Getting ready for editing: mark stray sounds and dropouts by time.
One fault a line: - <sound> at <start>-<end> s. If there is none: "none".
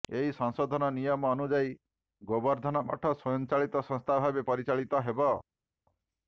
none